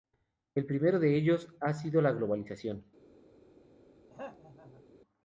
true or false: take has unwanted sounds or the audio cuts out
true